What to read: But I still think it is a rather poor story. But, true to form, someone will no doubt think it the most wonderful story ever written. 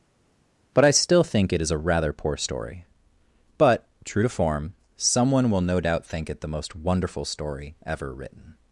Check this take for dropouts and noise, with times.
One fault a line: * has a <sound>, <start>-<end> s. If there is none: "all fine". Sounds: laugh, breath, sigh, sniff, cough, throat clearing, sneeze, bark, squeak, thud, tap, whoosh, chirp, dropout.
all fine